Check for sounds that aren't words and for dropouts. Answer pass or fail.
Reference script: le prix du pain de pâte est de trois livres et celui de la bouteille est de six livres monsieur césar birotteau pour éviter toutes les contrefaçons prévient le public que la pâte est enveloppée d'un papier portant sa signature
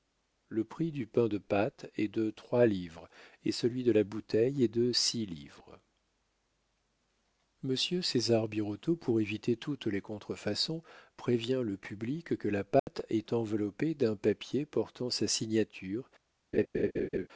fail